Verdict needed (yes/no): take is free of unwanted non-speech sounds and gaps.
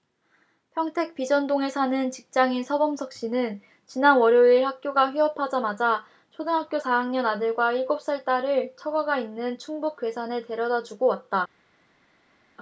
yes